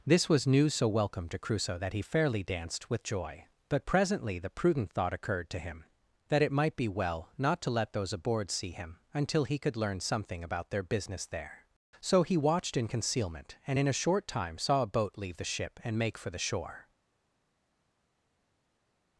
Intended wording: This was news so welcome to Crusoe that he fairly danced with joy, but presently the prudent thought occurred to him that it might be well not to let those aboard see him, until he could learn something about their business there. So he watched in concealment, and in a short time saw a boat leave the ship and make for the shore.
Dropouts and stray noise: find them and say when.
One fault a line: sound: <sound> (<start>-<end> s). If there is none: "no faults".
no faults